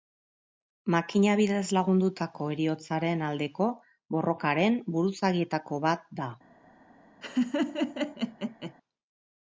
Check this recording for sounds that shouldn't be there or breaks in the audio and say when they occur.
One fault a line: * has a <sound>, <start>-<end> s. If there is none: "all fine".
* has a laugh, 7.2-8.7 s